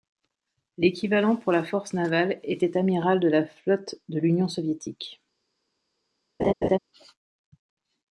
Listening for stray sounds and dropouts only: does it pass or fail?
fail